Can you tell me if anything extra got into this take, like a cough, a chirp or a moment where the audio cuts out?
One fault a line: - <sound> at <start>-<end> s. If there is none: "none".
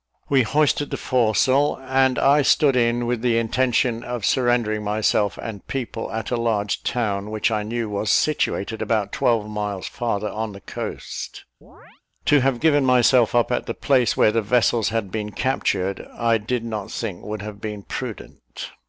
- chirp at 11.6-12.0 s